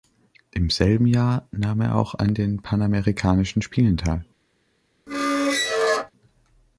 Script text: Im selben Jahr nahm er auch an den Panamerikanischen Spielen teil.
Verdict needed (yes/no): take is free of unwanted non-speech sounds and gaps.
no